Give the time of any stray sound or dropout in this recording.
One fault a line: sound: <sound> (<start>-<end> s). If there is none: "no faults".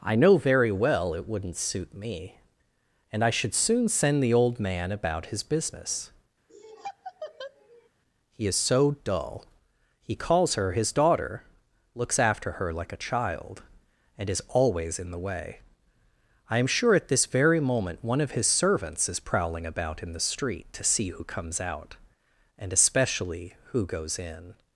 sound: laugh (6.5-7.9 s)